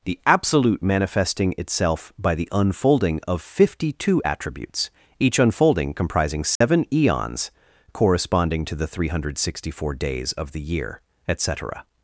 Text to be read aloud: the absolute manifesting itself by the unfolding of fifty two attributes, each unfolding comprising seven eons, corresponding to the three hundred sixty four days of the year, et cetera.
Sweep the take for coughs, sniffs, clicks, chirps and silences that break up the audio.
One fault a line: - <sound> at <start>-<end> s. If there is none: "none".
- dropout at 6.6-6.6 s